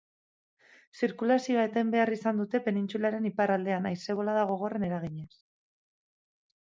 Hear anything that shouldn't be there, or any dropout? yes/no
no